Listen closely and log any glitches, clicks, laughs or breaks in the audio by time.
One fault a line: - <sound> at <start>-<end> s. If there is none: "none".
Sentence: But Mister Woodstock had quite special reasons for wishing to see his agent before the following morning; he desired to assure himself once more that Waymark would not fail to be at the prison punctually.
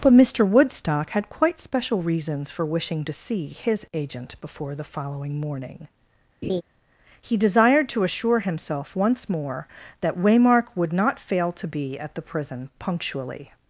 - laugh at 6.4-6.6 s